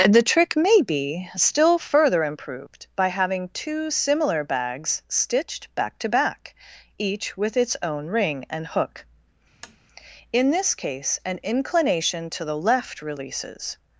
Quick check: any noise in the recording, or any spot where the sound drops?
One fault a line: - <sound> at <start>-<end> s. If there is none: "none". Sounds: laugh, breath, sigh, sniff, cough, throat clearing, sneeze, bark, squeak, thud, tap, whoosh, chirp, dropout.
- tap at 9.6-9.8 s